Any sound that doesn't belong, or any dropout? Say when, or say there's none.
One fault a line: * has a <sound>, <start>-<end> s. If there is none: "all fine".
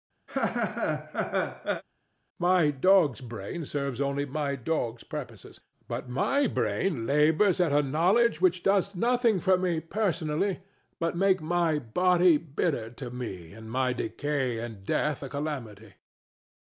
* has a laugh, 0.3-1.8 s